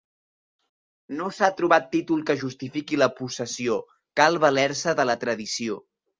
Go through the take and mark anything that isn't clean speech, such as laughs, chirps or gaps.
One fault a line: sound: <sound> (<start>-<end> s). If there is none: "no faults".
no faults